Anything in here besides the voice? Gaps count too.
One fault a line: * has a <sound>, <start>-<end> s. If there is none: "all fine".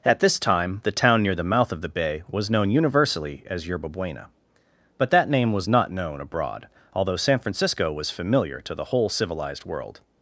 all fine